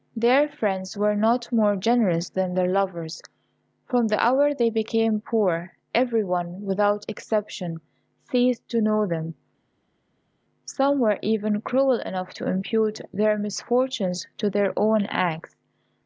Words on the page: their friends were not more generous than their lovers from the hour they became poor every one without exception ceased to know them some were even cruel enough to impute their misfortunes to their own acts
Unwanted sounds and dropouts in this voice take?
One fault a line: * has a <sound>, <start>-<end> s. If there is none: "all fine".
all fine